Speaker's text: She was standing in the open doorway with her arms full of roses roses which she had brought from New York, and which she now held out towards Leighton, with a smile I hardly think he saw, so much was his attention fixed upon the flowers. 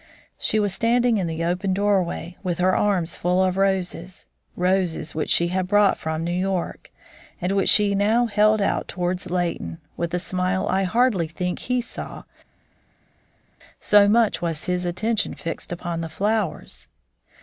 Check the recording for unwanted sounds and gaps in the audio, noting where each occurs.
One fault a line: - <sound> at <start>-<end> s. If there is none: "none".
none